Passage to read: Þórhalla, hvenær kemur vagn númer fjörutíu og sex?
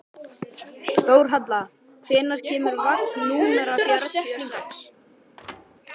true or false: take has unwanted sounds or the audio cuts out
true